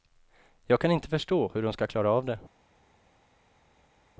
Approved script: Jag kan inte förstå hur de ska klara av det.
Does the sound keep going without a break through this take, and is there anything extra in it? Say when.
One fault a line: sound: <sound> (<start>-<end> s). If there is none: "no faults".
no faults